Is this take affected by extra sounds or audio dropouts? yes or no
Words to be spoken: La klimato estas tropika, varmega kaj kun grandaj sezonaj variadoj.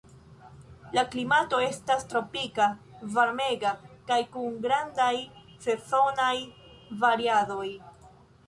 no